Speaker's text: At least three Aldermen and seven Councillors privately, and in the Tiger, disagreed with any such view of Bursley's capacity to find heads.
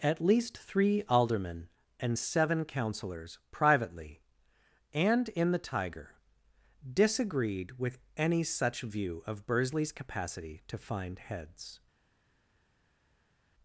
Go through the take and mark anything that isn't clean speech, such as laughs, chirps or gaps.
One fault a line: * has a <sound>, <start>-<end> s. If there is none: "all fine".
all fine